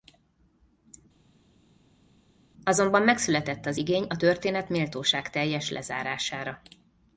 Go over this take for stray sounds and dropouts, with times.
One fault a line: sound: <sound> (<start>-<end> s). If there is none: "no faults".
no faults